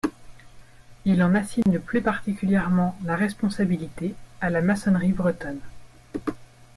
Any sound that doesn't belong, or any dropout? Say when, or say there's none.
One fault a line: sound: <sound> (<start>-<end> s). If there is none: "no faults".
sound: dropout (1.6-1.7 s)